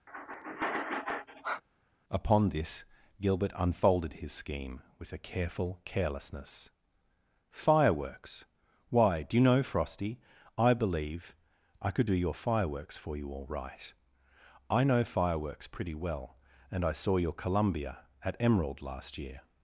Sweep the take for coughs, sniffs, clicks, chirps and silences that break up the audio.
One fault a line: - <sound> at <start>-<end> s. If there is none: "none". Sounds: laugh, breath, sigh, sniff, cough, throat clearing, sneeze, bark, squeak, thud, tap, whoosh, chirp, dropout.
- sigh at 0.1-1.6 s